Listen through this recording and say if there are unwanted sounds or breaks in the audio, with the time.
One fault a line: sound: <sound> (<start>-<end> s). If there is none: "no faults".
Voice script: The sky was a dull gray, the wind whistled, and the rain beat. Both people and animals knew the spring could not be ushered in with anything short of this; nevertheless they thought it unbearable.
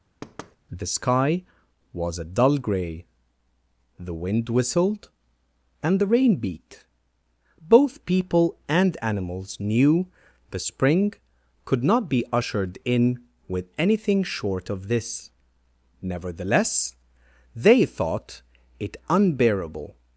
sound: thud (0.2-0.6 s)